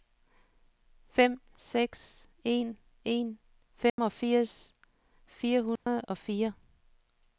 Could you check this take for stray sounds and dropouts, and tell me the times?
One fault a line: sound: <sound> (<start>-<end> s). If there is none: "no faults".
sound: dropout (3.9-4.0 s)
sound: dropout (5.8-5.9 s)